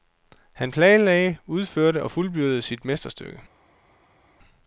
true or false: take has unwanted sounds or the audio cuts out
false